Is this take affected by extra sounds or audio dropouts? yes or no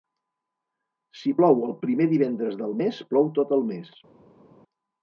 no